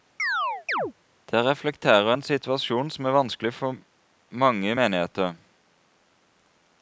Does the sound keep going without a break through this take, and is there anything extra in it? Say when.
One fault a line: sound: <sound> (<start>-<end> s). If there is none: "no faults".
sound: chirp (0.2-0.9 s)